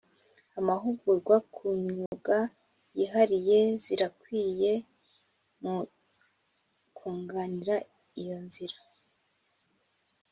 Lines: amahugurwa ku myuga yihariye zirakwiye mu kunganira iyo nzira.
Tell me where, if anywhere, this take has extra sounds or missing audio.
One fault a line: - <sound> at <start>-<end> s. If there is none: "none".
- dropout at 2.1-2.1 s